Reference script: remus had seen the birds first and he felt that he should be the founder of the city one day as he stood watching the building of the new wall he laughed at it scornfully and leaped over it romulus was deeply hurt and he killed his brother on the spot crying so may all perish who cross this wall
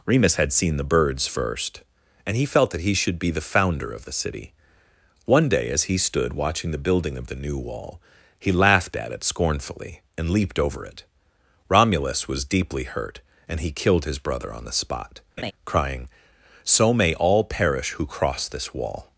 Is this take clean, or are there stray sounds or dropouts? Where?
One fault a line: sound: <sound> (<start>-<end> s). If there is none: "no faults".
sound: laugh (15.4-15.5 s)